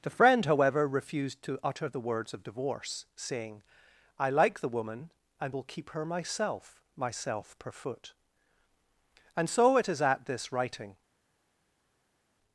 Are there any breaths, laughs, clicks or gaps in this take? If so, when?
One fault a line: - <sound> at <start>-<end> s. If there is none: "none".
none